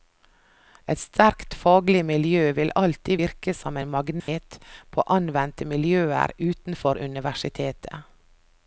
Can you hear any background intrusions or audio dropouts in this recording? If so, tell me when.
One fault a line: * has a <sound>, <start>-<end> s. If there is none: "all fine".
* has a dropout, 4.2-4.3 s